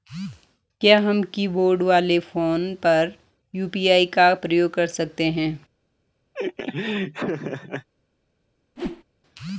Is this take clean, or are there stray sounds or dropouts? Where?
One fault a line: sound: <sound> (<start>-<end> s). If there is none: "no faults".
sound: laugh (6.3-7.9 s)
sound: whoosh (8.8-9.0 s)